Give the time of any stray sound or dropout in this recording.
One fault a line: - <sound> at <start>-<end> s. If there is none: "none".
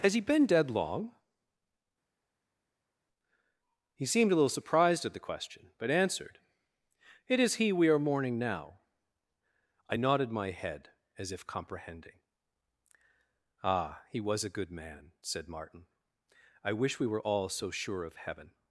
none